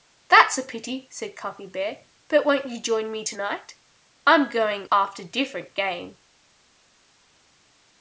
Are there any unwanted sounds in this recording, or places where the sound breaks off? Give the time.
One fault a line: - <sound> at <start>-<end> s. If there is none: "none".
none